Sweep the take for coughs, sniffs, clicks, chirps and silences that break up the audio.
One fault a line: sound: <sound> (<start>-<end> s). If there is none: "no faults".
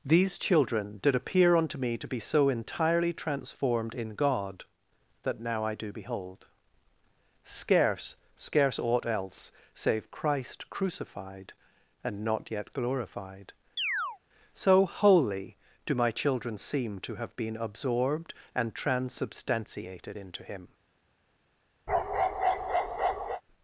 sound: chirp (13.8-14.2 s)
sound: bark (21.9-23.4 s)